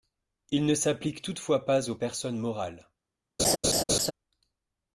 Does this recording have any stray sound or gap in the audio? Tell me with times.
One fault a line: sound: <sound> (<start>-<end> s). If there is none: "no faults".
sound: laugh (3.4-4.1 s)